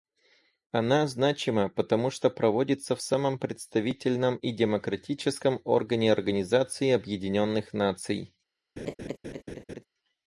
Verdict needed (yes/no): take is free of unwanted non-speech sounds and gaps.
no